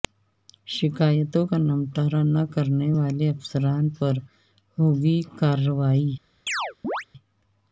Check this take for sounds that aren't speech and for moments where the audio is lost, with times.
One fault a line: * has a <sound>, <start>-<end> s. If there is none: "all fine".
* has a chirp, 6.5-7.1 s